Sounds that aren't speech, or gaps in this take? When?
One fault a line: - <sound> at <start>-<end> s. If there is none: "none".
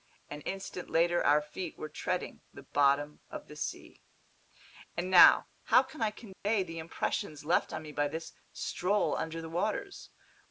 - dropout at 6.3-6.5 s